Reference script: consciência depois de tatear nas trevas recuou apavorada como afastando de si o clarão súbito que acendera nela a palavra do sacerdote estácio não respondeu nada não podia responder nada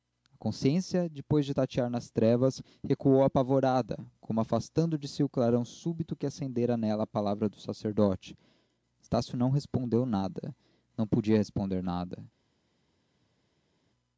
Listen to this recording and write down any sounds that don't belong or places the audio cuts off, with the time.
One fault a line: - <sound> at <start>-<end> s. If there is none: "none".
none